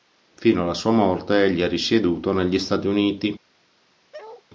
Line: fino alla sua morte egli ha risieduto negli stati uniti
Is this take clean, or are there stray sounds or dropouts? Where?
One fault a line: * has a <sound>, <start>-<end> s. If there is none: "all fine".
* has a bark, 4.1-4.4 s